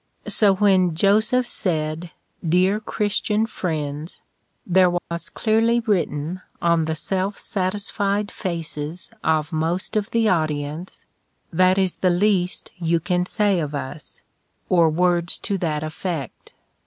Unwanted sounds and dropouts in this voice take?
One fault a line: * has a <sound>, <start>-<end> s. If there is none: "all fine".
* has a dropout, 5.0-5.1 s